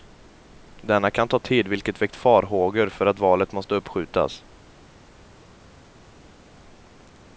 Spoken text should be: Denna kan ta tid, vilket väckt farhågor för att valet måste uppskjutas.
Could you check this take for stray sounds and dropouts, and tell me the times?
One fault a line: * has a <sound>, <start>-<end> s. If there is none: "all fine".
all fine